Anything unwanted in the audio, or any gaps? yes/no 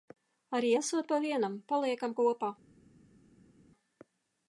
no